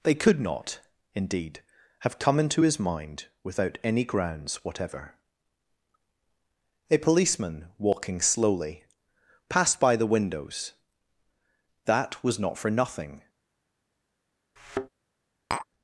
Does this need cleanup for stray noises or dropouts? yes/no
yes